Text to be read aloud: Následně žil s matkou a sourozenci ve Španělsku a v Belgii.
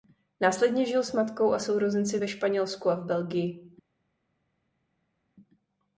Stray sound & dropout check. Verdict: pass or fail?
pass